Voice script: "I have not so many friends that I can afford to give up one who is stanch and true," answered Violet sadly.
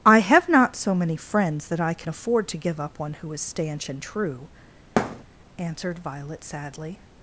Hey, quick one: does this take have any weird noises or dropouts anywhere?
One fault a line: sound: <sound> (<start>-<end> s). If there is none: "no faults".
sound: thud (5.0-5.2 s)